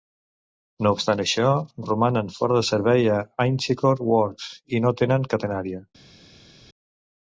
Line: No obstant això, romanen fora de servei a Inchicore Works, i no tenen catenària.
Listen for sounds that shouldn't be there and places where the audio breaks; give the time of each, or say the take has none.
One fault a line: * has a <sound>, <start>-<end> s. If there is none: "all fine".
all fine